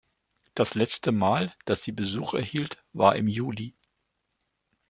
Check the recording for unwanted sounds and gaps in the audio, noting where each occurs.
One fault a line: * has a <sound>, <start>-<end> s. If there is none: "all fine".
all fine